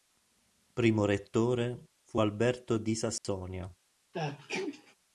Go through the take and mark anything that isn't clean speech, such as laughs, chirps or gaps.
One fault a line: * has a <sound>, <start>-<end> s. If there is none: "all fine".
* has a dropout, 3.2-3.2 s
* has a sneeze, 4.1-5.0 s